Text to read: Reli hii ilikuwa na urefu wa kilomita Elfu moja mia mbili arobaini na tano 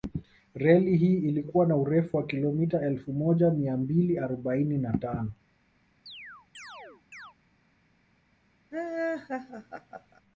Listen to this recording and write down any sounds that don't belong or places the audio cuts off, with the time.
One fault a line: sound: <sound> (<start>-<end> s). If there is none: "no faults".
sound: chirp (6.1-7.3 s)
sound: laugh (8.7-10.2 s)